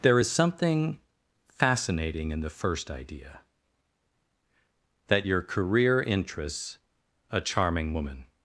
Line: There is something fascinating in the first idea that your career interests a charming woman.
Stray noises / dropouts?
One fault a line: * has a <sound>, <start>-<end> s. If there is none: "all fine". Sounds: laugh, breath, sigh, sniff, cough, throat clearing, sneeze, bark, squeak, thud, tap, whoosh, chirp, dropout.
all fine